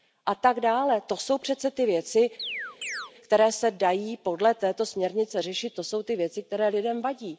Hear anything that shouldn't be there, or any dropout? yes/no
yes